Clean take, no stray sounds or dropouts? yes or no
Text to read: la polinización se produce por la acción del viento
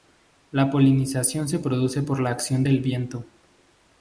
yes